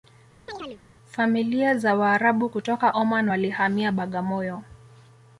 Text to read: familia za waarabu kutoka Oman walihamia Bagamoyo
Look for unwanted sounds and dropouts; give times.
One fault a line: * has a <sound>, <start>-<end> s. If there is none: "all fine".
* has a chirp, 0.5-0.8 s